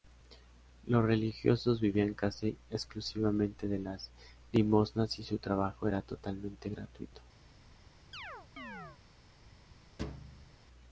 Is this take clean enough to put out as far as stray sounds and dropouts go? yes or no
no